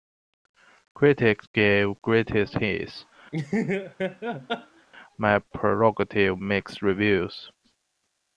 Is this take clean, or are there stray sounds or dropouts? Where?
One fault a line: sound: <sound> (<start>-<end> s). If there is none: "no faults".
sound: laugh (3.3-4.9 s)